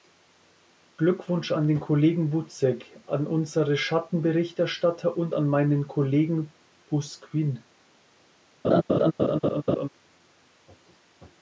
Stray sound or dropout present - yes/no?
yes